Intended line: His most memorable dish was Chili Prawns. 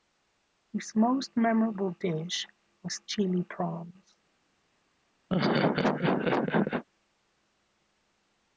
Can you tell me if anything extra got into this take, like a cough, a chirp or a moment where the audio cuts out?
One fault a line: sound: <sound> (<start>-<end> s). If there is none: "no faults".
sound: laugh (5.3-6.8 s)